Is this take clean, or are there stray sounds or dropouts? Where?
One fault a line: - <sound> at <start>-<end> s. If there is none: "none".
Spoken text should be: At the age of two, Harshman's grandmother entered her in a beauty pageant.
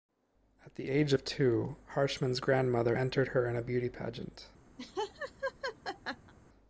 - laugh at 4.8-6.3 s